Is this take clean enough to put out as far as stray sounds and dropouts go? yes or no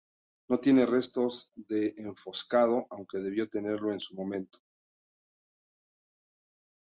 yes